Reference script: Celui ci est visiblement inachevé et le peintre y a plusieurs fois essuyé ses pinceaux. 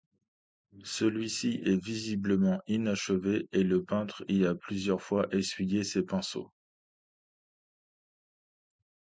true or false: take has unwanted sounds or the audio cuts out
false